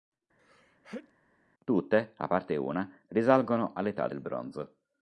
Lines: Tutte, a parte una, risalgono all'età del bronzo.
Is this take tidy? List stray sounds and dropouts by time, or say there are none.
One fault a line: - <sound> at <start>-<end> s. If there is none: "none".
- sneeze at 0.4-1.1 s